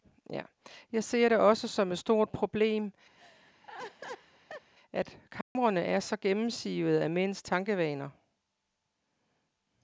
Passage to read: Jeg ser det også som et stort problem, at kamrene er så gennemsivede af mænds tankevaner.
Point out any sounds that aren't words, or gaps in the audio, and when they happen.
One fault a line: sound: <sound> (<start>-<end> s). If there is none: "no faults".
sound: laugh (3.2-4.7 s)
sound: dropout (5.4-5.6 s)